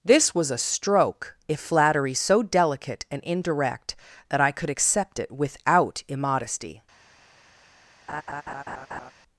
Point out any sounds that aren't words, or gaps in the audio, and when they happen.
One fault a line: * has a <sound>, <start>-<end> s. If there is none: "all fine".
* has a laugh, 8.1-9.1 s